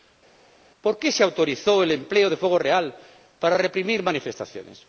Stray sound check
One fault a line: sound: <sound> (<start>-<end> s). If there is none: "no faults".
no faults